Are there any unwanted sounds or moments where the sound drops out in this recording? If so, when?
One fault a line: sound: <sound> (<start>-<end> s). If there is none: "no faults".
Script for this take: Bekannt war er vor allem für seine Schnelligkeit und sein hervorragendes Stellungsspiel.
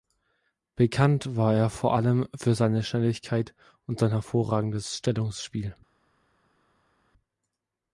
no faults